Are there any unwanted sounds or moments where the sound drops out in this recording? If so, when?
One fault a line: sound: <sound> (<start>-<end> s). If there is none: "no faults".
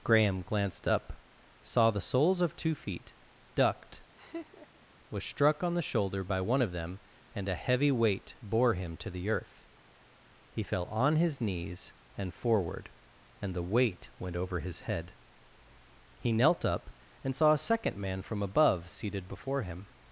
sound: laugh (4.2-4.9 s)